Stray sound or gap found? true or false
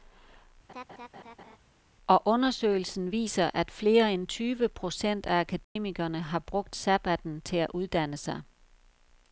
true